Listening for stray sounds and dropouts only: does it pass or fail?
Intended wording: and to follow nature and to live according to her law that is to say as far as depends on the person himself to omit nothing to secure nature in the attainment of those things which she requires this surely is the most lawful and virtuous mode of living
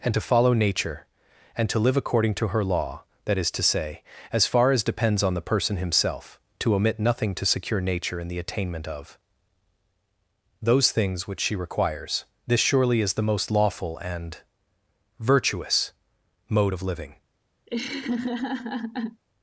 fail